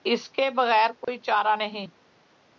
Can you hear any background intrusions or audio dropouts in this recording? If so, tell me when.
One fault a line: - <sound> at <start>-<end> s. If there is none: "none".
- dropout at 1.0-1.1 s